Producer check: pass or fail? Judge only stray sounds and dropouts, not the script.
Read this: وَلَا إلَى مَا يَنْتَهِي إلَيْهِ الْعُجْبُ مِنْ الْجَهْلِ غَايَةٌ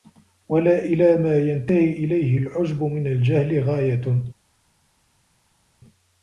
pass